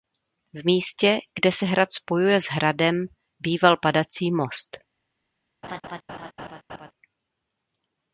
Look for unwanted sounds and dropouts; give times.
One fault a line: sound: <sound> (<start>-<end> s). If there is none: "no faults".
sound: laugh (5.6-6.9 s)